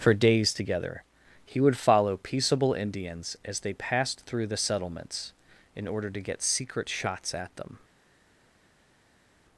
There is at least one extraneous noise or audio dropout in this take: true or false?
false